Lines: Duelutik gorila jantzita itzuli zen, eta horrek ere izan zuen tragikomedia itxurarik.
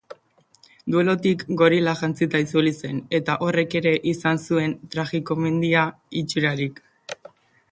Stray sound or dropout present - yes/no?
no